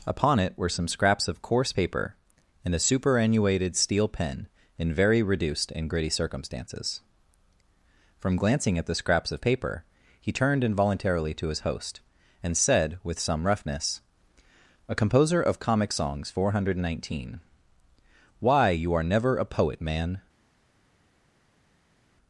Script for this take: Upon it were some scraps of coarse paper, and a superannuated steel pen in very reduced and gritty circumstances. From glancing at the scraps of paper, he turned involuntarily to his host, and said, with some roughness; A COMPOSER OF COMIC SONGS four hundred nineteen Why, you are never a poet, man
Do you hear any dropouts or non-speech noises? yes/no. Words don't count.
no